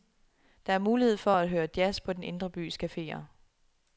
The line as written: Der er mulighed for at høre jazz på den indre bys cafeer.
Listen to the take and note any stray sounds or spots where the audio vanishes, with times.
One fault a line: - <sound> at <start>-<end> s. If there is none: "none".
none